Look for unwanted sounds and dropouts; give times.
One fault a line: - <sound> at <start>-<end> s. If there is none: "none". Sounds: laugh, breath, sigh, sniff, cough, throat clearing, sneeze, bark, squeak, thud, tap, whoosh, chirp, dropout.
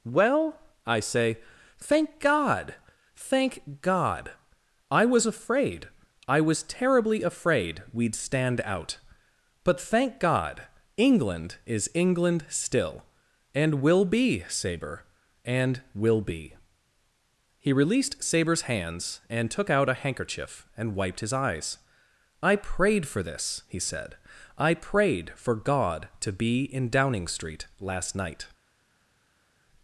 none